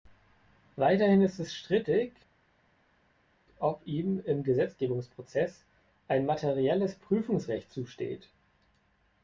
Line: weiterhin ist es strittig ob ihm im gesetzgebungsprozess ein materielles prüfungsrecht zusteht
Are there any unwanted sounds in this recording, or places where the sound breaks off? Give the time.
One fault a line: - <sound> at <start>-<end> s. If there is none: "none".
none